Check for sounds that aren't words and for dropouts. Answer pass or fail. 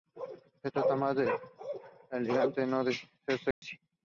fail